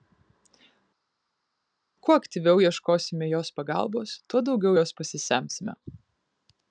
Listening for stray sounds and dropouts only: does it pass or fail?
pass